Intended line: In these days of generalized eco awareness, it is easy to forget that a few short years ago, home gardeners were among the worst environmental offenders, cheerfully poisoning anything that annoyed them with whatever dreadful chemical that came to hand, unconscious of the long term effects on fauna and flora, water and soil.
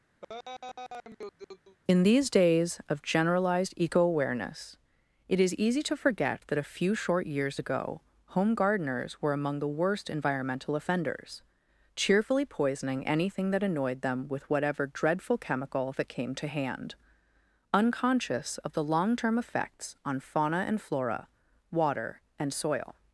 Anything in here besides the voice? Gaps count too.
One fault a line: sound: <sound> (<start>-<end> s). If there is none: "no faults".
sound: laugh (0.2-1.8 s)